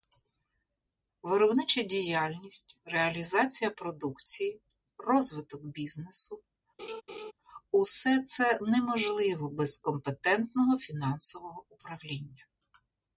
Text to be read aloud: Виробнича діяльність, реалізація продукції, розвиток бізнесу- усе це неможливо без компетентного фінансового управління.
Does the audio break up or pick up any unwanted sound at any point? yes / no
yes